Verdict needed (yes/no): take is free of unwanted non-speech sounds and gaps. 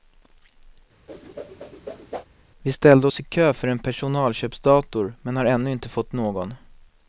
no